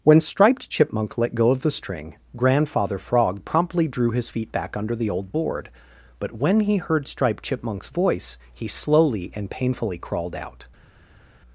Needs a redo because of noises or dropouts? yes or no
no